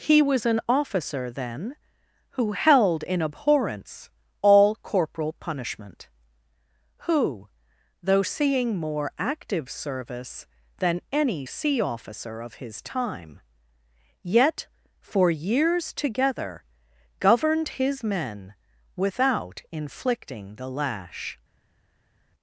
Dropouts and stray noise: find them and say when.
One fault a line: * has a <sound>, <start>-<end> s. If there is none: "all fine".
all fine